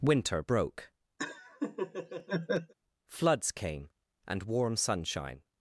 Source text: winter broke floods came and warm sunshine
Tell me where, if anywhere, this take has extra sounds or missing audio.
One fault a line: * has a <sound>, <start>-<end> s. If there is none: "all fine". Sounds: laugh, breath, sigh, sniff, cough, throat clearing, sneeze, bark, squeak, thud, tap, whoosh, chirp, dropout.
* has a laugh, 1.2-2.7 s